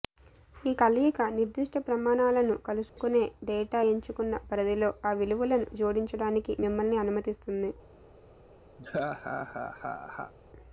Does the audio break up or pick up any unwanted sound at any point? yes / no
yes